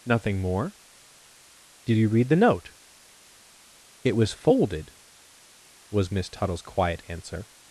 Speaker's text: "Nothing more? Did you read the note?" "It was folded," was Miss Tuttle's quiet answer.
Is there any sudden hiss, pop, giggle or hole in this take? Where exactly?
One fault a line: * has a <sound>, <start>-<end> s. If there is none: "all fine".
all fine